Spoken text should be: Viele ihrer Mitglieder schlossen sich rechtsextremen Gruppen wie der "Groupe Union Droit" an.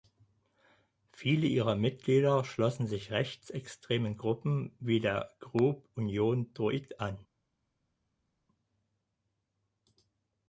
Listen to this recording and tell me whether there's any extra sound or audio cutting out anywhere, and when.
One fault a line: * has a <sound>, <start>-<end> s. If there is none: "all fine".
all fine